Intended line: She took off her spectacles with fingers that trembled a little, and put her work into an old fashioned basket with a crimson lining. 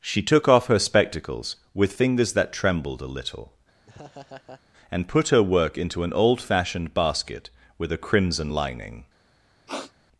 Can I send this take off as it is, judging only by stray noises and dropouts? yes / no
no